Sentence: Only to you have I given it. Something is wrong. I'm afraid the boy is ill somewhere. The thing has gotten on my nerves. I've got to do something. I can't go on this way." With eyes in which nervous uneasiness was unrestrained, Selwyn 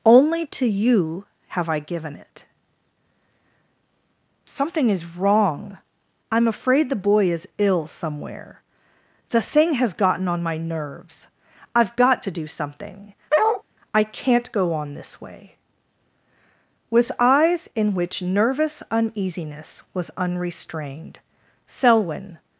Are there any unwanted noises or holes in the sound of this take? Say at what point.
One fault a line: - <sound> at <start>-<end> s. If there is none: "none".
- bark at 13.3-13.6 s